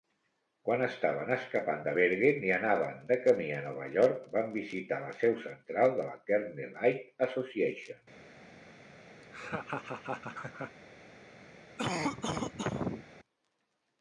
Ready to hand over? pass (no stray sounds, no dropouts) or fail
fail